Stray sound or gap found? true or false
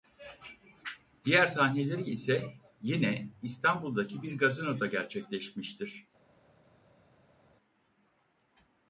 false